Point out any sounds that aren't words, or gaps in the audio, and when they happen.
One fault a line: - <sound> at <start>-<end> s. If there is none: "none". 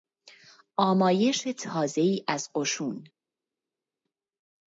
none